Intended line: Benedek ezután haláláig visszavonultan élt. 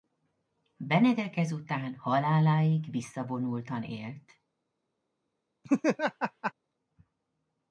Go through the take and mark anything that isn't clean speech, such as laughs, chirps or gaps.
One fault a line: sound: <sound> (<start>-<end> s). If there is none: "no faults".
sound: laugh (5.6-6.5 s)